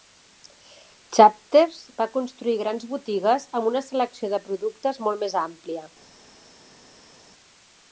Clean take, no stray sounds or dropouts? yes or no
yes